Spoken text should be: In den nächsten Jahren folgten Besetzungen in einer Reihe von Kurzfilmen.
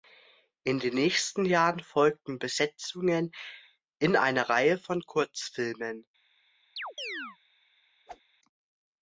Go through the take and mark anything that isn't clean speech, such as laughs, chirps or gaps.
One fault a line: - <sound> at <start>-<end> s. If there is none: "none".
- chirp at 6.8-7.4 s
- whoosh at 8.1-8.2 s